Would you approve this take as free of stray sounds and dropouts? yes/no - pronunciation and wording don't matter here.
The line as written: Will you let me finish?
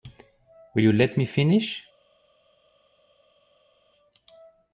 yes